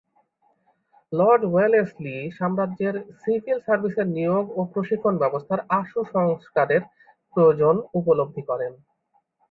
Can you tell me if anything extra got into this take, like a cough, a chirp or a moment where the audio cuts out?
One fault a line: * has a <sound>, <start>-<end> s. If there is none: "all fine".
all fine